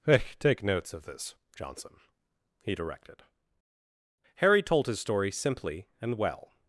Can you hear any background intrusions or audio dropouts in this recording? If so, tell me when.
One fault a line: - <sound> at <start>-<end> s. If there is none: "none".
none